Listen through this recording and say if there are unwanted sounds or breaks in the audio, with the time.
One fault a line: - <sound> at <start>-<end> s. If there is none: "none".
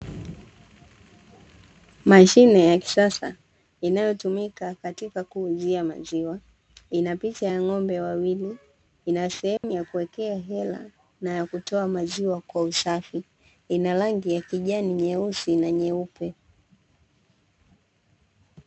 - dropout at 9.6-9.6 s